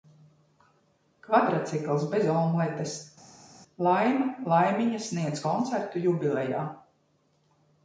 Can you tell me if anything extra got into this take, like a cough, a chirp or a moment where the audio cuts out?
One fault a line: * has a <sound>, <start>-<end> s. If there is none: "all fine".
all fine